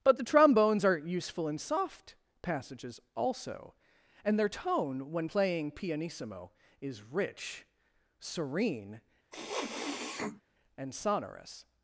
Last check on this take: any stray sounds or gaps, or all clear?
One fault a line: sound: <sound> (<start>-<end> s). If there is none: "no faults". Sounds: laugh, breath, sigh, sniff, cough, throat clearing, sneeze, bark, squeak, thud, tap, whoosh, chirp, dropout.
sound: sniff (9.3-10.4 s)